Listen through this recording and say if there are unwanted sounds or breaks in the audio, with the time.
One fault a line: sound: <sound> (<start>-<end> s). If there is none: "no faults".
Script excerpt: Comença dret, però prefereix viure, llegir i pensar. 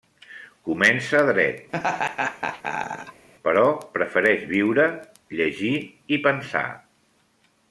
sound: laugh (1.7-3.3 s)